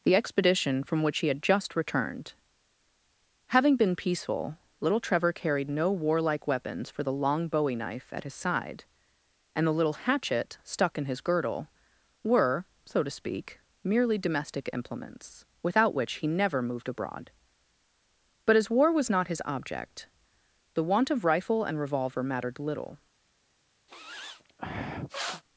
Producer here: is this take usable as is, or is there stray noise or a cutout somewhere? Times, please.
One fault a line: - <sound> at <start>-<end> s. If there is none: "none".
- sniff at 23.9-25.4 s